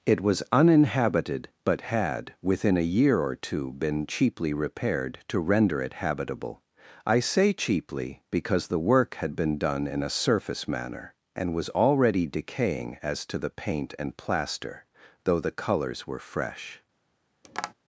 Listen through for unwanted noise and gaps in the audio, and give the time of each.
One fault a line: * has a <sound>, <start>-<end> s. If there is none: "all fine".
* has a tap, 17.4-17.7 s